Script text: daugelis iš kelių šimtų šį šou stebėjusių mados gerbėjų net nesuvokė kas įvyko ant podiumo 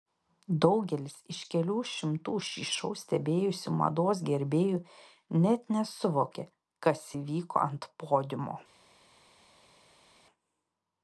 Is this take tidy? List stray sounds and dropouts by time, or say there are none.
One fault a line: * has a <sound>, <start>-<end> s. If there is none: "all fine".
all fine